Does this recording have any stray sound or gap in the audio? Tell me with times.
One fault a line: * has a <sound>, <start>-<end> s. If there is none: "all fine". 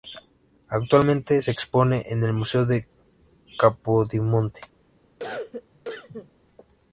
* has a cough, 5.2-6.3 s